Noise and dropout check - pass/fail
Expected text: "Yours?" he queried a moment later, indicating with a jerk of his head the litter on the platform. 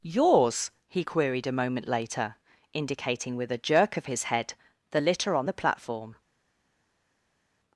pass